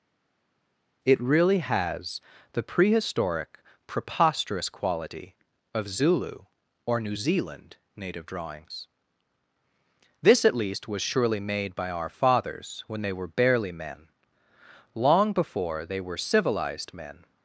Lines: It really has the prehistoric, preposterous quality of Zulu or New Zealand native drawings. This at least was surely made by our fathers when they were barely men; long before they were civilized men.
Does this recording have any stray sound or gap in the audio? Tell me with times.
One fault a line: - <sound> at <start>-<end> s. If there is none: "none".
none